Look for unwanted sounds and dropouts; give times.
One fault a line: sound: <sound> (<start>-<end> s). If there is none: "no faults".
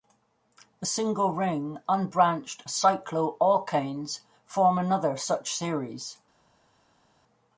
no faults